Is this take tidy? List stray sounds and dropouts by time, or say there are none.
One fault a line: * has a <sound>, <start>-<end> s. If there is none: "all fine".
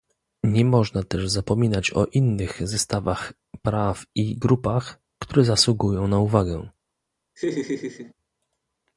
* has a laugh, 7.4-8.1 s